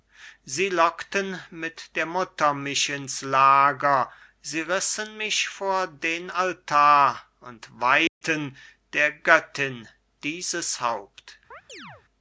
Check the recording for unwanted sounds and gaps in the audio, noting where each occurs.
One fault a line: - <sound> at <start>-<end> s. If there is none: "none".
- dropout at 8.1-8.2 s
- chirp at 11.5-12.0 s